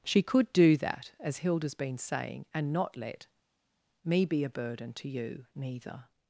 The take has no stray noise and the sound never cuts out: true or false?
true